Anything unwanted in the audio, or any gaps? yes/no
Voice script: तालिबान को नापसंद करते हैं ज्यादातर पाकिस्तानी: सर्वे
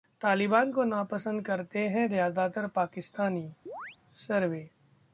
yes